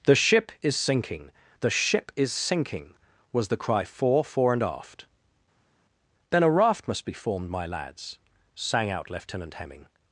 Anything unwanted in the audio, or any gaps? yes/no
no